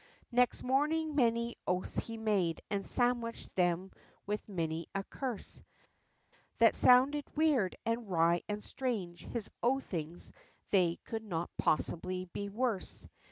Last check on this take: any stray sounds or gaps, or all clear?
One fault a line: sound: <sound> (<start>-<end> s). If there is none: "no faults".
no faults